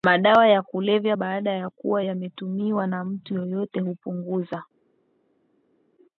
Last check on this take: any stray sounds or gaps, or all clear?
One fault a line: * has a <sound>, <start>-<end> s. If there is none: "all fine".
all fine